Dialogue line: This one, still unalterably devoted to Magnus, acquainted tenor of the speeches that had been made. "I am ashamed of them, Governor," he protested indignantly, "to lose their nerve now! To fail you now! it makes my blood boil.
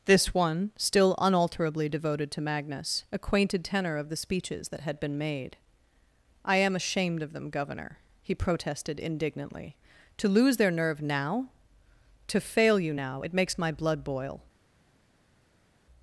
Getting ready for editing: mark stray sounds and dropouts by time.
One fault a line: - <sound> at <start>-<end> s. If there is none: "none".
none